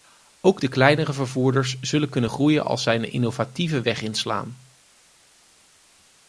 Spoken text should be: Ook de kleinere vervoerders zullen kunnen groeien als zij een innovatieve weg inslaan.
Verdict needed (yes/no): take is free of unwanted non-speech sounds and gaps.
yes